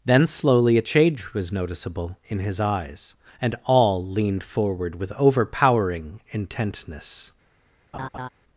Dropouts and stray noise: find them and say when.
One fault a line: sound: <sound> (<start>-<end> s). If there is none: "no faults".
sound: laugh (7.9-8.3 s)